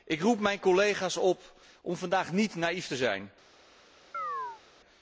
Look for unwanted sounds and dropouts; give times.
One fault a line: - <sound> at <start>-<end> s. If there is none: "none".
- chirp at 4.1-4.6 s